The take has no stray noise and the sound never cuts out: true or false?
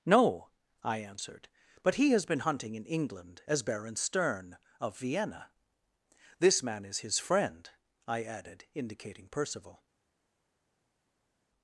true